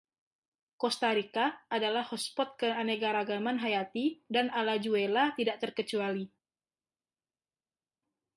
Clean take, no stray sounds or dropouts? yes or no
yes